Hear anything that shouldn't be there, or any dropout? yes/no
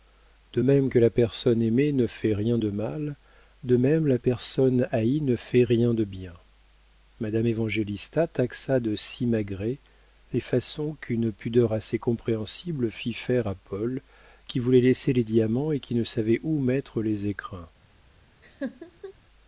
yes